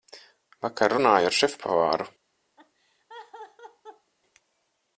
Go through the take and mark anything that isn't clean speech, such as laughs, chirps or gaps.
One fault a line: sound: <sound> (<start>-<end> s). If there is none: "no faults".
sound: laugh (2.6-4.1 s)